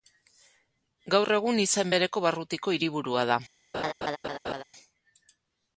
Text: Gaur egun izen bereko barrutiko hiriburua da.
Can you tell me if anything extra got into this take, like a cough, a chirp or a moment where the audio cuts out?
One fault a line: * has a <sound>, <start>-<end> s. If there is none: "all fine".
* has a laugh, 3.7-4.6 s